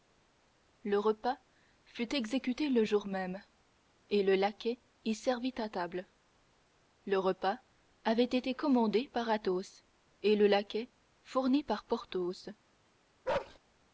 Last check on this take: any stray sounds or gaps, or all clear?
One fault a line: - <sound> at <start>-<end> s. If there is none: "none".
- bark at 13.2-13.6 s